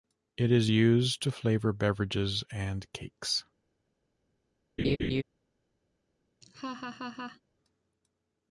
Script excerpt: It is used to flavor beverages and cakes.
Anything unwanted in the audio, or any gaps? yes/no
yes